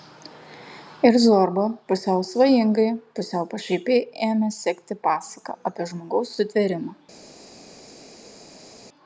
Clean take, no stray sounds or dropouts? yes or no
yes